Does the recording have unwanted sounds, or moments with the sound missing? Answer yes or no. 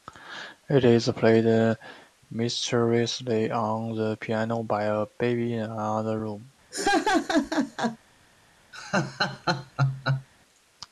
yes